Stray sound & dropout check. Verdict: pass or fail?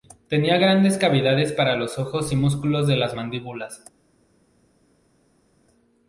pass